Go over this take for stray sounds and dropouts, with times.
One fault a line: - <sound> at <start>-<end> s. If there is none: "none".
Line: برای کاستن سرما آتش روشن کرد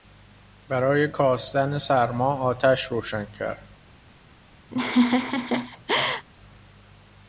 - laugh at 4.7-6.3 s